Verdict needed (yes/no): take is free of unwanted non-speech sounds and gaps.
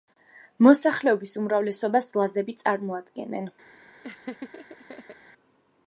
no